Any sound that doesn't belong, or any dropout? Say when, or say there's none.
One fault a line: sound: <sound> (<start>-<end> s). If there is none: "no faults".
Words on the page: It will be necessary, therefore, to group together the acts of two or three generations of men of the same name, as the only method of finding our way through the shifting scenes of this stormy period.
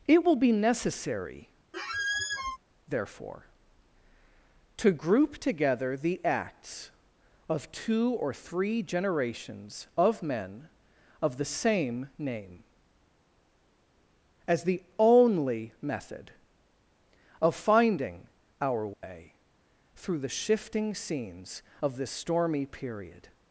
sound: squeak (1.7-2.6 s)
sound: dropout (18.9-19.0 s)